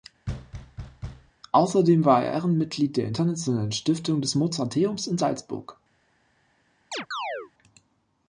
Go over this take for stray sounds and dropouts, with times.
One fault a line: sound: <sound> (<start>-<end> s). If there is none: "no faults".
sound: thud (0.3-1.3 s)
sound: chirp (6.9-7.5 s)